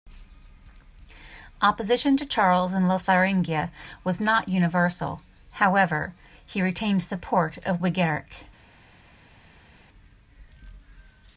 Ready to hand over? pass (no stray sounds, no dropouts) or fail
pass